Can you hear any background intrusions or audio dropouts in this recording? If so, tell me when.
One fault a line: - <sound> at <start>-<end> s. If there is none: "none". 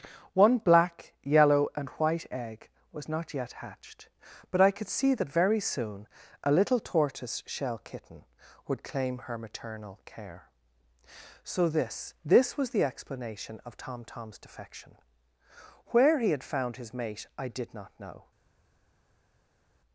none